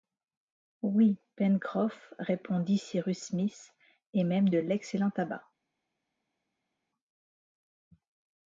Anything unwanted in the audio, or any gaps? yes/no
no